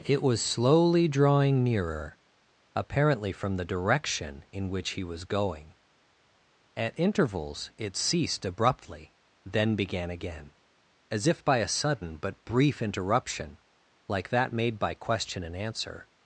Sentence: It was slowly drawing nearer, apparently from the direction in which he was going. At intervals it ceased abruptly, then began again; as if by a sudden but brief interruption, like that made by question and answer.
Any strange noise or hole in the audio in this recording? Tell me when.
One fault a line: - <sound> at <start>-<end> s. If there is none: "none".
none